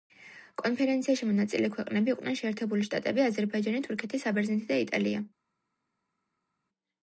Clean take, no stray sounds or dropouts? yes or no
yes